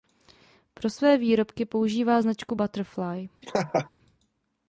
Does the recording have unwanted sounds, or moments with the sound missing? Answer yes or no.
yes